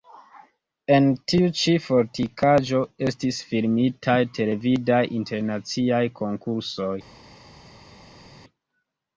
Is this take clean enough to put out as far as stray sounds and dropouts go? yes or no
yes